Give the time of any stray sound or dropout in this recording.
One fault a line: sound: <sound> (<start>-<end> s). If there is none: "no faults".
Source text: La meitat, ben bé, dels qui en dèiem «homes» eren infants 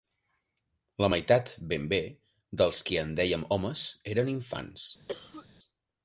sound: cough (5.1-5.5 s)